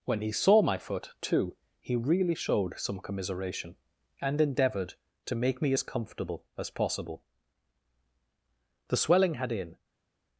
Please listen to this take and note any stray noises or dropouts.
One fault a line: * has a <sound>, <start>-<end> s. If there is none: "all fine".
all fine